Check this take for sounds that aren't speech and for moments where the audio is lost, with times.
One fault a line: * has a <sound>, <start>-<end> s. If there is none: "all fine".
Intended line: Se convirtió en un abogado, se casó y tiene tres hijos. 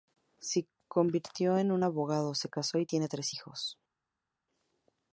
all fine